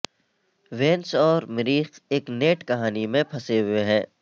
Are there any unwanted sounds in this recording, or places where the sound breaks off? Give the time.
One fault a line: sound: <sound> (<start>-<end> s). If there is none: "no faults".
no faults